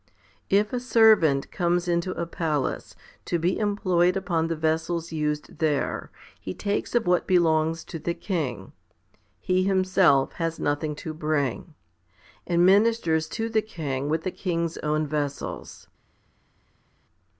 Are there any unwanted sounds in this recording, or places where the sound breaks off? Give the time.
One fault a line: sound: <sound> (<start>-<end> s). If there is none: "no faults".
no faults